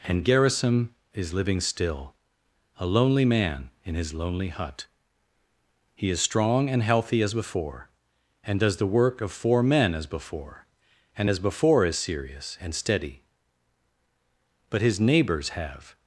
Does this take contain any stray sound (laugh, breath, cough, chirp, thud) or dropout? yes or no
no